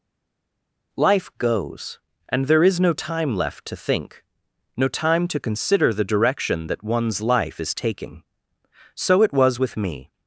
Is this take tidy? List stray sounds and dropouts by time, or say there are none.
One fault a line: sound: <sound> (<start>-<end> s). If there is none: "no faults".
no faults